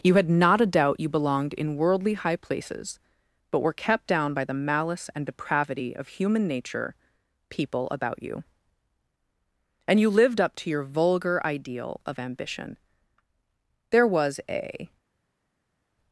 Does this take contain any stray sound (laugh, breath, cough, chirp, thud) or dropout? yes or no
no